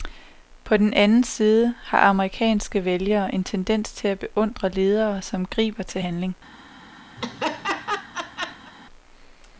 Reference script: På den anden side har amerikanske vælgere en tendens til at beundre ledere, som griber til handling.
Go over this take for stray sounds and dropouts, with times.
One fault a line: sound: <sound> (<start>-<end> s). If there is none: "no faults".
sound: laugh (7.2-8.7 s)